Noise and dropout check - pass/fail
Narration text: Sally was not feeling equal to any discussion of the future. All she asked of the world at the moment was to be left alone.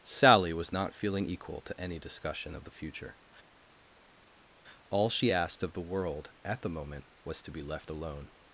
pass